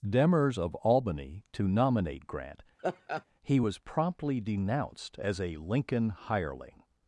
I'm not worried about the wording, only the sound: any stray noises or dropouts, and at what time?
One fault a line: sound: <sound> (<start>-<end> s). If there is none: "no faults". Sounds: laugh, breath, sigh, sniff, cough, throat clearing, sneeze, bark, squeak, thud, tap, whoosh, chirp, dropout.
sound: laugh (2.8-3.2 s)